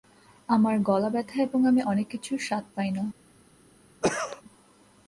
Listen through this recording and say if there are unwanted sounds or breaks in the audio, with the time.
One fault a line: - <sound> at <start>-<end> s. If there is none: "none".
- cough at 4.0-4.4 s